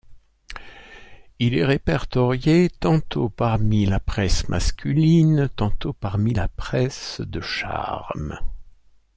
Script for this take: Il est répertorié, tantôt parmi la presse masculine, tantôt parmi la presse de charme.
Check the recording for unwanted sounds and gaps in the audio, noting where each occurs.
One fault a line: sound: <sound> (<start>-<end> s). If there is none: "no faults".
no faults